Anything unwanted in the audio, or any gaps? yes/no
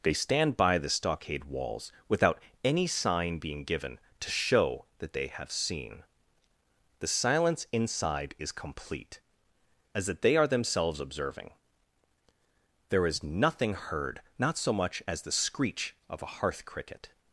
no